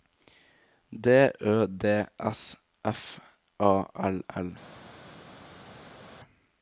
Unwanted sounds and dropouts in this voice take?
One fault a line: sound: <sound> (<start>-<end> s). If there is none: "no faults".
no faults